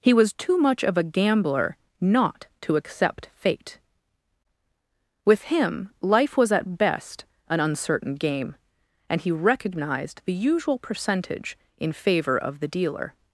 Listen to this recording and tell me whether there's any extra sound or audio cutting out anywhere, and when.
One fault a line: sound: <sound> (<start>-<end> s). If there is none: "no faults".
no faults